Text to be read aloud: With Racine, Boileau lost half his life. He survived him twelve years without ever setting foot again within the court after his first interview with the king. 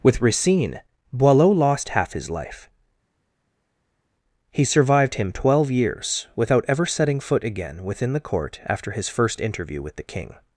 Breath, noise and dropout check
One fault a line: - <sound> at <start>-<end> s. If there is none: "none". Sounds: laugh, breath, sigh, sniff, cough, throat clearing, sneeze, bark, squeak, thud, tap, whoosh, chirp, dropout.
none